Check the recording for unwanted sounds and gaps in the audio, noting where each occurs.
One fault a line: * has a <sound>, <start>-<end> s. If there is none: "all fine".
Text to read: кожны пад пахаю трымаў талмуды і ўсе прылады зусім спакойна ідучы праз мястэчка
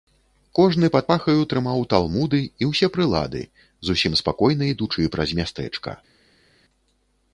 all fine